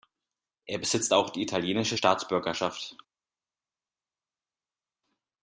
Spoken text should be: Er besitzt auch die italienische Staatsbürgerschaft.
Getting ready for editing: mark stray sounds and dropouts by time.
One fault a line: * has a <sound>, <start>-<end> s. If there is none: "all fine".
all fine